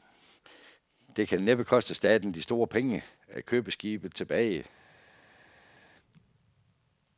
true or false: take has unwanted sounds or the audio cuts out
false